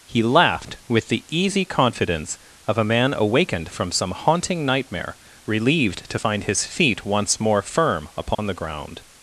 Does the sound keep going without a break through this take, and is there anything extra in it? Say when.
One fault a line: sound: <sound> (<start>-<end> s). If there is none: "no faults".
sound: dropout (8.3-8.4 s)